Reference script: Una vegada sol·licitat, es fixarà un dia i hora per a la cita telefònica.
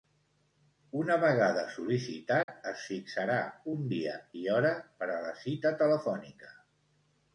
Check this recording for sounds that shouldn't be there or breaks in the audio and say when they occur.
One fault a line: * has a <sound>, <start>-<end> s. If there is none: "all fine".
* has a dropout, 2.4-2.5 s